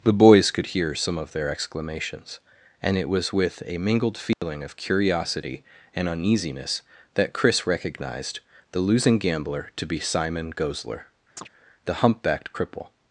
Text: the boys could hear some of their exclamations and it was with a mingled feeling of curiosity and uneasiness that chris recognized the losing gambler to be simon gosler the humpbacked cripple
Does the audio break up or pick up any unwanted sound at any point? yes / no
yes